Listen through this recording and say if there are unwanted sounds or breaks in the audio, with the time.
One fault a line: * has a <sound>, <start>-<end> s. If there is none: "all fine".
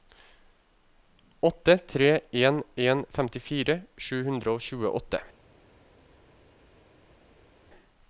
all fine